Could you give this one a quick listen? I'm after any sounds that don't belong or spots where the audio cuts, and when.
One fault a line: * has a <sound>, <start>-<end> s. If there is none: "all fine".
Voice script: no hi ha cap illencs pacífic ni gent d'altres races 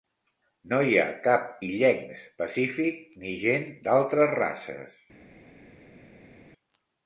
all fine